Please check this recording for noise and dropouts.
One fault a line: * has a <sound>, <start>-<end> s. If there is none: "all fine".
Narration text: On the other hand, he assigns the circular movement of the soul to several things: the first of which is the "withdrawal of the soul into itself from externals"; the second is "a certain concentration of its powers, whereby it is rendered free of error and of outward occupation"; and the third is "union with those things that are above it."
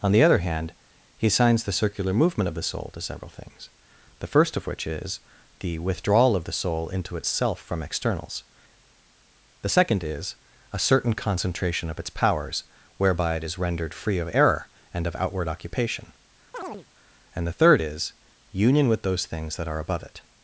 * has a chirp, 16.5-16.9 s